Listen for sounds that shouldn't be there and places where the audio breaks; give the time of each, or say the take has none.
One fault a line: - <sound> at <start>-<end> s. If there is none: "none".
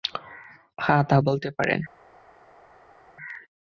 none